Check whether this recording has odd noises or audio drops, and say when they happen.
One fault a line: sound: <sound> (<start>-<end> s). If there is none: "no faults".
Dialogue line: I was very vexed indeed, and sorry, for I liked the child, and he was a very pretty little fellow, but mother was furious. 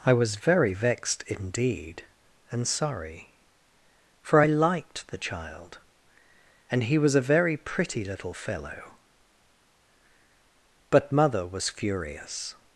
no faults